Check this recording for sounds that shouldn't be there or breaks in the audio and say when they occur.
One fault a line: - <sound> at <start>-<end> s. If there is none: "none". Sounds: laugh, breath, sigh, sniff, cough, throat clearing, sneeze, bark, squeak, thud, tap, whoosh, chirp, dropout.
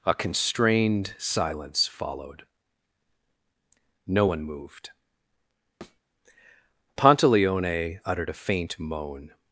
- thud at 5.8-6.0 s